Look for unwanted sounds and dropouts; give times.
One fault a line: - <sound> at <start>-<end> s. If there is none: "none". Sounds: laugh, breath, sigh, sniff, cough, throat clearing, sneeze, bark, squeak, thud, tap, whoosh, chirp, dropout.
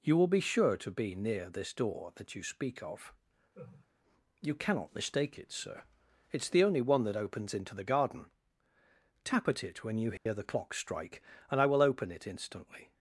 - laugh at 3.5-3.9 s
- dropout at 10.2-10.3 s